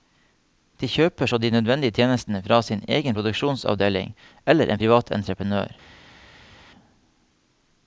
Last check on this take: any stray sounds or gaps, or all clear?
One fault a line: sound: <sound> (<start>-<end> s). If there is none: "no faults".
no faults